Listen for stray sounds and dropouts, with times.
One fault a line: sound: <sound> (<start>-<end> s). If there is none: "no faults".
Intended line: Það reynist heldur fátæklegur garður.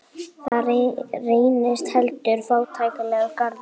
sound: dropout (0.5-0.5 s)